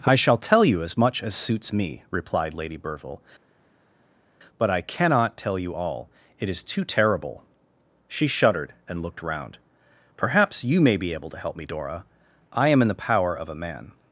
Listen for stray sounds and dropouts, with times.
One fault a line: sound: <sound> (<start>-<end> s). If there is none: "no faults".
no faults